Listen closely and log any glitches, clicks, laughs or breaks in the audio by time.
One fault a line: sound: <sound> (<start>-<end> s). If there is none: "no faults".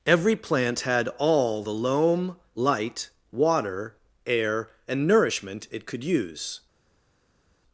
no faults